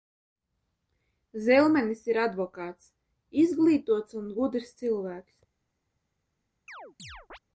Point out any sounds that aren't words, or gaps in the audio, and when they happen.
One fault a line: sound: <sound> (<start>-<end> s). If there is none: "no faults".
sound: chirp (6.7-7.4 s)